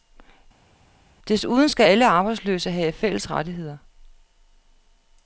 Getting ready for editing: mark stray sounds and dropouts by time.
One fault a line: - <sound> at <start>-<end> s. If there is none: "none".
none